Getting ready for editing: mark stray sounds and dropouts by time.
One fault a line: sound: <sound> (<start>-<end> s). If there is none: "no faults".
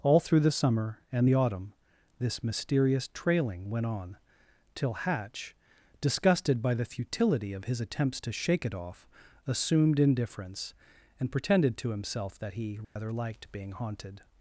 sound: dropout (12.8-13.0 s)